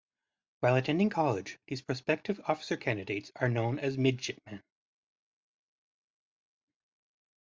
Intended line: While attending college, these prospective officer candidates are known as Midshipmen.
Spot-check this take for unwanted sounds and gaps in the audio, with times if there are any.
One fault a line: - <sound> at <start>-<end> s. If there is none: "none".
none